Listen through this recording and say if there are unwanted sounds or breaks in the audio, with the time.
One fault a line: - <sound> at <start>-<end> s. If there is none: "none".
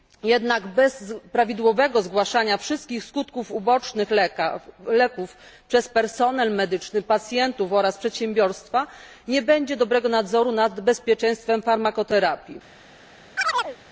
- chirp at 13.4-13.8 s